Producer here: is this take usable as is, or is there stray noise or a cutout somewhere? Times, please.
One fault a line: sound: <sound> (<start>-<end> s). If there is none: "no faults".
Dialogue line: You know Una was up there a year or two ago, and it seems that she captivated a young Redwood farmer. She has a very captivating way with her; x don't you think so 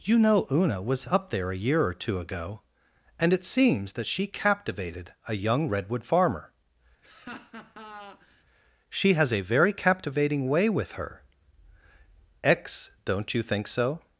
sound: laugh (7.0-8.4 s)